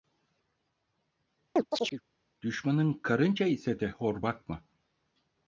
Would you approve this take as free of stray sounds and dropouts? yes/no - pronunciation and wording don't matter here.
no